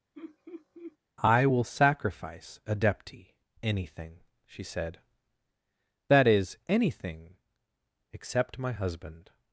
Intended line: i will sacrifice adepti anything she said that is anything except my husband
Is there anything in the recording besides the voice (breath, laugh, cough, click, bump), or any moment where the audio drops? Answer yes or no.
yes